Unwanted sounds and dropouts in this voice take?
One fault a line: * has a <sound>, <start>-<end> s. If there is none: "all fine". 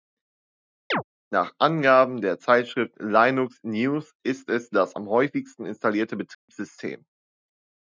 * has a chirp, 0.9-1.0 s
* has a dropout, 6.3-6.5 s